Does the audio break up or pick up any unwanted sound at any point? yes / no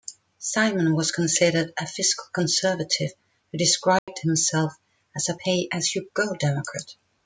yes